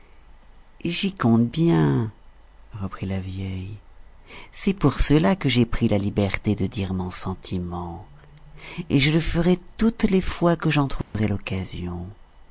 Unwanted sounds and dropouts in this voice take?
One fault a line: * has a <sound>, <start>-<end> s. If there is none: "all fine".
* has a dropout, 11.0-11.1 s